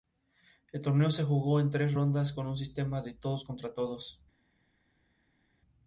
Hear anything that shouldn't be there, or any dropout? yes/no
no